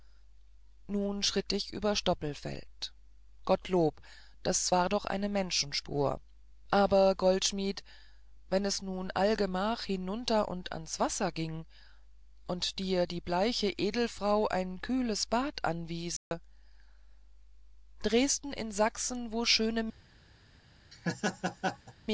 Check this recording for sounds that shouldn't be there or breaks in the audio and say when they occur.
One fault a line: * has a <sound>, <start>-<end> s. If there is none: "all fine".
* has a dropout, 16.2-16.3 s
* has a laugh, 20.9-21.9 s